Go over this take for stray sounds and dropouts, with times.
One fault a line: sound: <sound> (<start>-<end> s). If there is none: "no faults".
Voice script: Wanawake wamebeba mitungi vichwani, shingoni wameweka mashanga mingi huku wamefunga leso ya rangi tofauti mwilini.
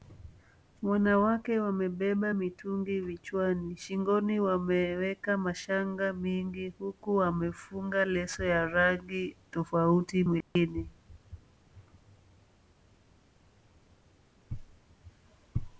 sound: dropout (10.4-10.6 s)